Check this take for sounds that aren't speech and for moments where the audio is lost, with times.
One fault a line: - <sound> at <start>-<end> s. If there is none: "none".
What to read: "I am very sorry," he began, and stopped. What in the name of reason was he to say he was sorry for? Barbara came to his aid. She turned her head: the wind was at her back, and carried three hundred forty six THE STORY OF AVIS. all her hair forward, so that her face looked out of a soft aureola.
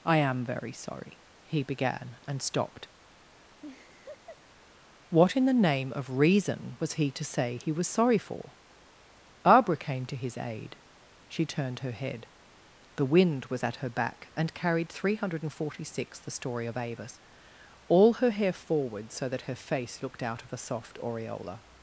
- laugh at 3.6-4.4 s